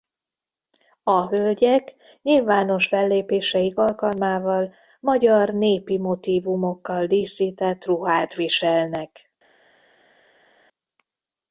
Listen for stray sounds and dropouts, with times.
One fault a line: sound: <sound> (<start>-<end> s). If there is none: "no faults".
no faults